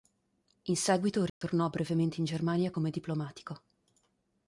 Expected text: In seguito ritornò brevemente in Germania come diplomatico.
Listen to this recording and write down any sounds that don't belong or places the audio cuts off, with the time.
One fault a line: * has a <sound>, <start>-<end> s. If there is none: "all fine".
* has a dropout, 1.3-1.4 s